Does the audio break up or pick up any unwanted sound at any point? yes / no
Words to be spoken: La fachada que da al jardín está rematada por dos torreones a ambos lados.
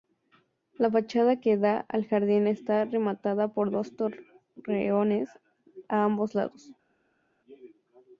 no